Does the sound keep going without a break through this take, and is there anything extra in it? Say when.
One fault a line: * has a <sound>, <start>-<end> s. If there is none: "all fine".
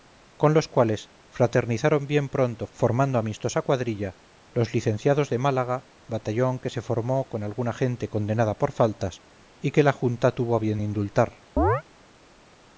* has a chirp, 11.6-11.8 s